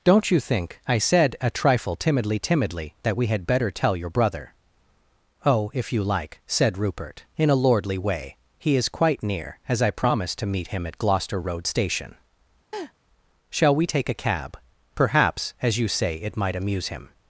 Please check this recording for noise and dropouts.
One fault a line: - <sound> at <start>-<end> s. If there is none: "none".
- laugh at 12.7-12.9 s